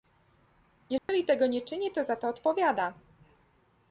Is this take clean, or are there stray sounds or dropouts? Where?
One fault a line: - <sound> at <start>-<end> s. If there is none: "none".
- dropout at 1.0-1.1 s